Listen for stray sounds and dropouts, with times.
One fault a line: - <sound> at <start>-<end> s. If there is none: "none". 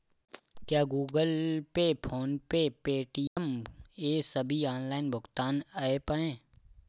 - dropout at 3.3-3.4 s